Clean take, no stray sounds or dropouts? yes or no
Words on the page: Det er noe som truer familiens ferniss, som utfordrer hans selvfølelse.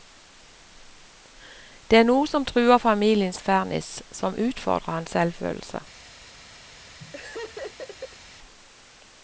no